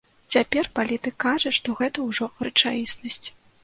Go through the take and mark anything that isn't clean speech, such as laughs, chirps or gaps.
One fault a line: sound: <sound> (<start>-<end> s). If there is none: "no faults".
no faults